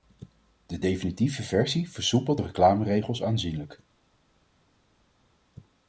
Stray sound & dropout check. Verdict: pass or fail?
pass